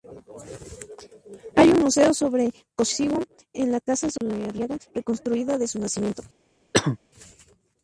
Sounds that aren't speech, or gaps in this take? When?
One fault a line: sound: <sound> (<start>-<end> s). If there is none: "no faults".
sound: dropout (4.2-4.2 s)
sound: cough (6.7-7.0 s)